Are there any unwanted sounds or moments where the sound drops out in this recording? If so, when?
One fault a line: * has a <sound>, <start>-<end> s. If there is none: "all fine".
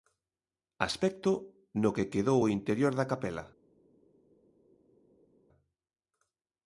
all fine